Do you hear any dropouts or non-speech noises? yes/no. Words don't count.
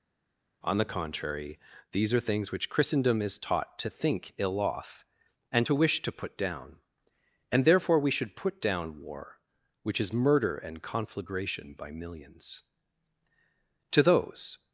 no